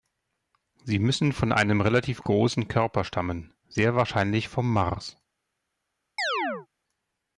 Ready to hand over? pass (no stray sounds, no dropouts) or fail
fail